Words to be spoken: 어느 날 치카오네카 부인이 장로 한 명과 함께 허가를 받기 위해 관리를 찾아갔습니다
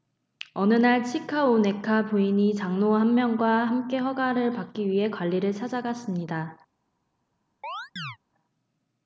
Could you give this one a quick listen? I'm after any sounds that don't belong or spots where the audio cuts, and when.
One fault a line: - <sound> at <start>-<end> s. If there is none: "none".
- chirp at 7.6-8.2 s